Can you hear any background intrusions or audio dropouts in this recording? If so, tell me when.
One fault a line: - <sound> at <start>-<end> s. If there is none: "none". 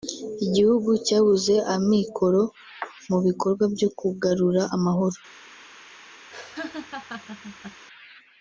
- laugh at 6.3-7.9 s